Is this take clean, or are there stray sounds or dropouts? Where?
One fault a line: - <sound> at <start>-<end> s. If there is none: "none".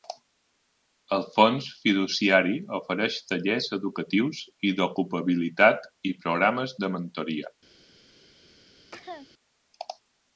- cough at 8.9-9.3 s